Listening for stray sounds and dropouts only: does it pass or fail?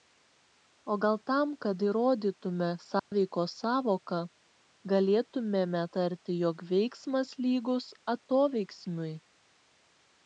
fail